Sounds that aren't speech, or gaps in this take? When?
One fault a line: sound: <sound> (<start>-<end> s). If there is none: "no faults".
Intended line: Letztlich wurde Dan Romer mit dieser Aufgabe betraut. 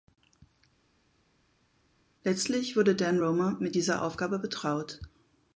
no faults